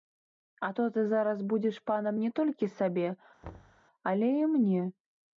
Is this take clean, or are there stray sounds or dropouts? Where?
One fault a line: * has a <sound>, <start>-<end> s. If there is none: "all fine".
* has a thud, 3.4-3.8 s